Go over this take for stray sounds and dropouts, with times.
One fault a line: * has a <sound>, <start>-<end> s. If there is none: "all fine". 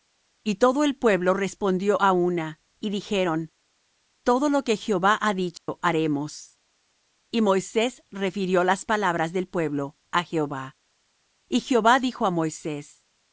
* has a dropout, 5.6-5.7 s